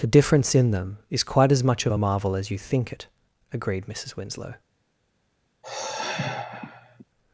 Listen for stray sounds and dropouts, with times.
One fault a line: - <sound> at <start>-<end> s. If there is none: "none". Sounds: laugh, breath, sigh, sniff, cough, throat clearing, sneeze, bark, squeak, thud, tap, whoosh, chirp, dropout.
- sigh at 5.6-7.0 s